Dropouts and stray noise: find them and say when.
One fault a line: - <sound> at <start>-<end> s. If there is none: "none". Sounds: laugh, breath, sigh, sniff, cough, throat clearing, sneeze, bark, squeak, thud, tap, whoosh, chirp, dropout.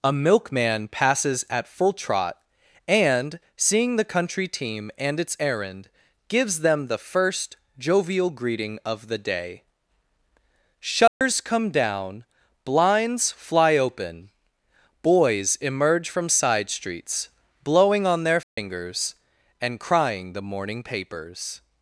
- dropout at 11.1-11.2 s
- dropout at 18.4-18.6 s